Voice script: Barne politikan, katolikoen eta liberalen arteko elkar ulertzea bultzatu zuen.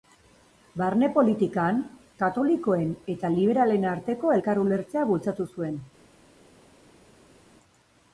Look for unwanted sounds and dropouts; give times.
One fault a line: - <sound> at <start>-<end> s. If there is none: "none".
none